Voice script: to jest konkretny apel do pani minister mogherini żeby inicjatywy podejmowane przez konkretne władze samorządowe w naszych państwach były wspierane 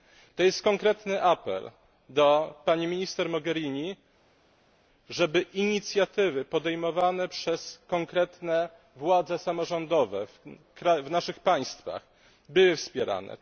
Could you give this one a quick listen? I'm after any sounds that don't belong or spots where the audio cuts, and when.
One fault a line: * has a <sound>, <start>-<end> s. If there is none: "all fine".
all fine